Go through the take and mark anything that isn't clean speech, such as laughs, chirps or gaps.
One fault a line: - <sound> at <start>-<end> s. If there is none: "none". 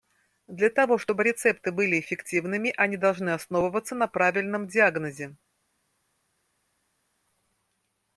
none